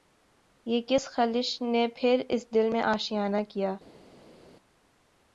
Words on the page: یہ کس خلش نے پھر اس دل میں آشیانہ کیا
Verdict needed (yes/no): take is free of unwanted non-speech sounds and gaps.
yes